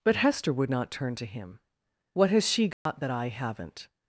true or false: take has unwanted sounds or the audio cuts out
true